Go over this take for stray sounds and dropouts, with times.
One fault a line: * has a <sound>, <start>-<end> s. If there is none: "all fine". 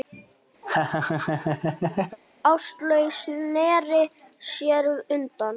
* has a laugh, 0.6-2.2 s